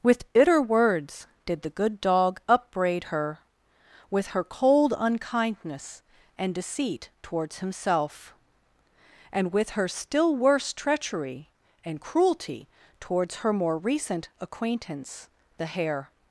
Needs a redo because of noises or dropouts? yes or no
no